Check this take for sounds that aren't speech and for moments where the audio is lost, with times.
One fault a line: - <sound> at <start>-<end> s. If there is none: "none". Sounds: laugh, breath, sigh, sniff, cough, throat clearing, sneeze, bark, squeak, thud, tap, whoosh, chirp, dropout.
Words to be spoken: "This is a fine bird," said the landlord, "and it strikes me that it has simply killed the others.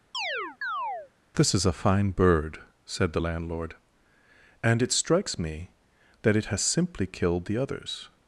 - chirp at 0.1-1.1 s